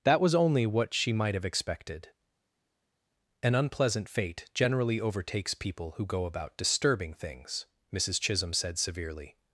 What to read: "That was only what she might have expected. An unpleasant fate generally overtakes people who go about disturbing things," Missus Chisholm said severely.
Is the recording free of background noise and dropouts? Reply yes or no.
yes